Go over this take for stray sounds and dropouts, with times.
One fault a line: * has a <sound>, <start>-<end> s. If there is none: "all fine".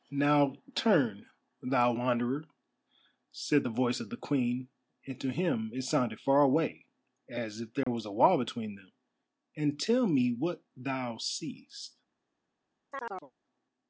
* has a dropout, 7.8-7.9 s
* has a chirp, 12.9-13.3 s